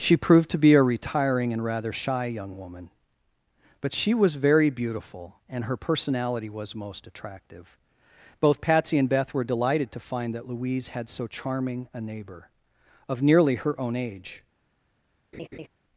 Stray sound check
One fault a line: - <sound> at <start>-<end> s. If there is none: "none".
- laugh at 15.3-15.7 s